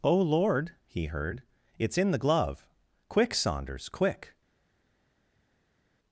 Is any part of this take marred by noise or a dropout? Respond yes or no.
no